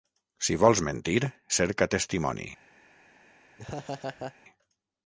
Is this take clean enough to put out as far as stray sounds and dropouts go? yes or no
no